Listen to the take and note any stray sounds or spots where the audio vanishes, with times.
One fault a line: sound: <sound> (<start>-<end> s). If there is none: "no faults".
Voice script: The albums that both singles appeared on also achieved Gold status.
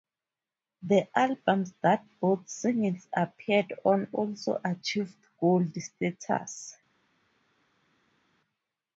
no faults